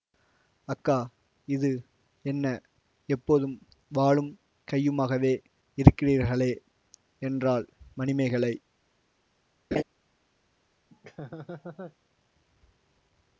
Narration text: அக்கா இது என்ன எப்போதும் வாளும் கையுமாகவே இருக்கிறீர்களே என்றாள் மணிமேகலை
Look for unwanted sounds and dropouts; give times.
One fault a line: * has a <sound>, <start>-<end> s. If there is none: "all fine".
* has a laugh, 9.7-9.8 s
* has a laugh, 10.9-12.0 s